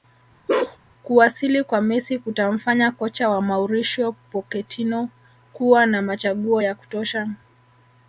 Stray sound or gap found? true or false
true